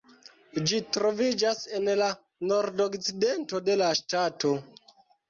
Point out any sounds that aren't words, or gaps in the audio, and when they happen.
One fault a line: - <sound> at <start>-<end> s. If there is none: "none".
none